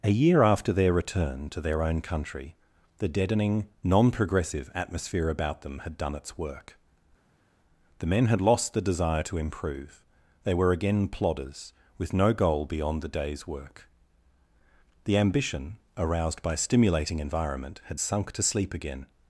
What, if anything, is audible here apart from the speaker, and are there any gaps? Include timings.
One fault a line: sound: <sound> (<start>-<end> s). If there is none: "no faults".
no faults